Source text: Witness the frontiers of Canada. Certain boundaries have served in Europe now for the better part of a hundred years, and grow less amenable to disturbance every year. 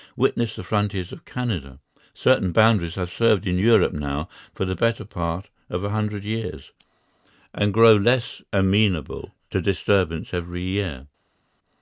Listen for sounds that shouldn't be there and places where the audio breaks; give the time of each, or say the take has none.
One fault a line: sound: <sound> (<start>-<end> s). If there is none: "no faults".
no faults